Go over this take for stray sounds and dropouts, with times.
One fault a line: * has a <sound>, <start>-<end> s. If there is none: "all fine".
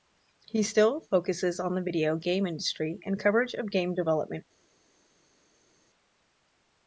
all fine